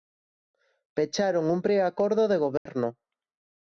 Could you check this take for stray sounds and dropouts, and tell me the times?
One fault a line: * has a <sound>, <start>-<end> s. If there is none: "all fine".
* has a dropout, 2.6-2.7 s